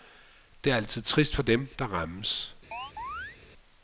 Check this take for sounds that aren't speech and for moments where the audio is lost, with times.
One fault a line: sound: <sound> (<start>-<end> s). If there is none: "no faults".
sound: chirp (2.7-3.4 s)